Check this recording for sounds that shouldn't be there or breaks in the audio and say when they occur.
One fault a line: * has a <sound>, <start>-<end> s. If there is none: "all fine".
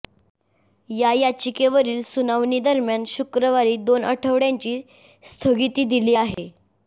* has a dropout, 6.3-6.4 s